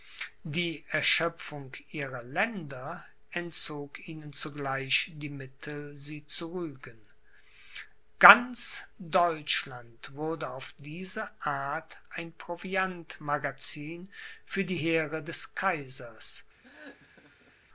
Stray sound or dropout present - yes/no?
yes